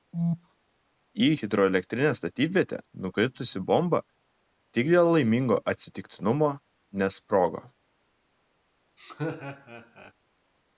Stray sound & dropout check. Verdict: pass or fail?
fail